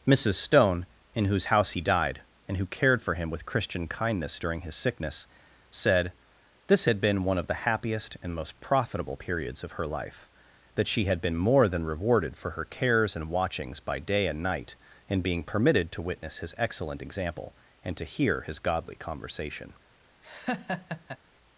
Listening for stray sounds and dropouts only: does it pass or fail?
fail